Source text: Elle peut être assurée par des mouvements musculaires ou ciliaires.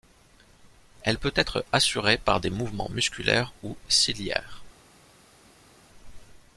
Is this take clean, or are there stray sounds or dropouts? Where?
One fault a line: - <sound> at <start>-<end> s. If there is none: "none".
none